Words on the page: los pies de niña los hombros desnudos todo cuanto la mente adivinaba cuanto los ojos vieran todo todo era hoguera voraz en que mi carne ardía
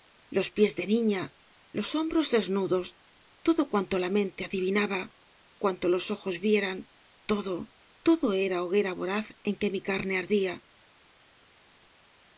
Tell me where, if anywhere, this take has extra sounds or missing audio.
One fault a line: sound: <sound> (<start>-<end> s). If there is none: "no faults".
no faults